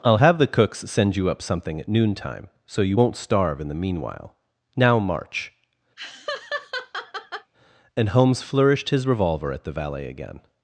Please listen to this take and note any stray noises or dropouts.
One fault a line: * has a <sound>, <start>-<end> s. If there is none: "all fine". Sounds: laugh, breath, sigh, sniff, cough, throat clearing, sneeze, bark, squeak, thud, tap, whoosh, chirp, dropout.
* has a laugh, 6.0-7.5 s